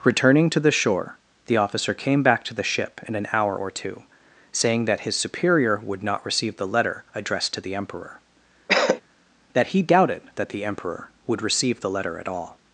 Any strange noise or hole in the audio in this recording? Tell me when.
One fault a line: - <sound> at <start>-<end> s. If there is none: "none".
- cough at 8.7-9.0 s